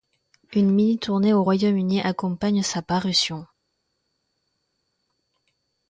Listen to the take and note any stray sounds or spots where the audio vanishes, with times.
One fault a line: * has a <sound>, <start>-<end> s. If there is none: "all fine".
all fine